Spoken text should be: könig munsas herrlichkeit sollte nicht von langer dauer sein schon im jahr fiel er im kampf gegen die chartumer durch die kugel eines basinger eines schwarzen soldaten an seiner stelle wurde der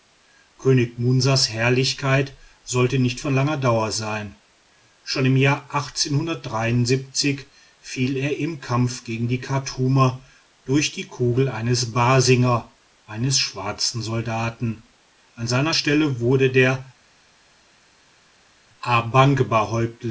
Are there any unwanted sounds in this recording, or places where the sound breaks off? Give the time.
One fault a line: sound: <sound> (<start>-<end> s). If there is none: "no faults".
no faults